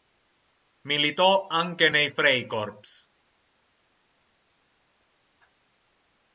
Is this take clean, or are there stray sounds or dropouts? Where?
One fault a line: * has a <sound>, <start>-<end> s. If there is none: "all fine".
all fine